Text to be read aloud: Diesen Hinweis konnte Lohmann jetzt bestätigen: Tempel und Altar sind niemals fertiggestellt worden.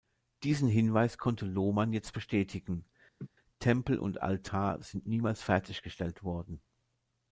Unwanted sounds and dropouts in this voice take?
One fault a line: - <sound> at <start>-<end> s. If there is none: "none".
- laugh at 3.2-3.3 s